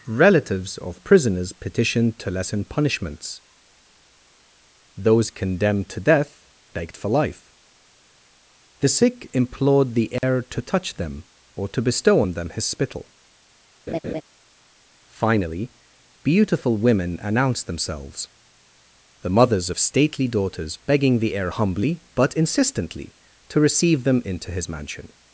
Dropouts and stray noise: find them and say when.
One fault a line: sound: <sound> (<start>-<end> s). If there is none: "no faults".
sound: dropout (10.2-10.2 s)
sound: laugh (13.9-14.2 s)